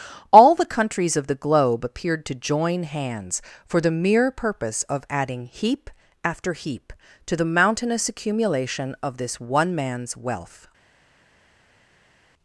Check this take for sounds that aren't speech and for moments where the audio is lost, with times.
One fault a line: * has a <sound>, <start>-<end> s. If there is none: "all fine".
all fine